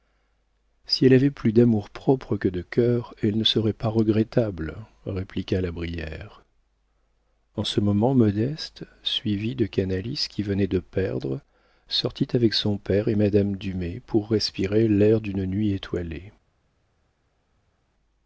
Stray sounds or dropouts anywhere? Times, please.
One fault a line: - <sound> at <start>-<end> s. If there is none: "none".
none